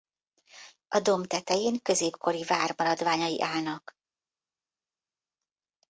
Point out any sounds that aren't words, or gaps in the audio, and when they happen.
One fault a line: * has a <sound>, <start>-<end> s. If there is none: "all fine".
all fine